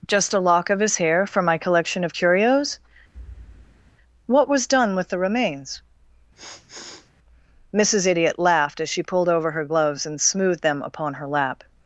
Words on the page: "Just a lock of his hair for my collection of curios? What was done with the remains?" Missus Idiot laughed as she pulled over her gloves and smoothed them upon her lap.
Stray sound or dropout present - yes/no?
yes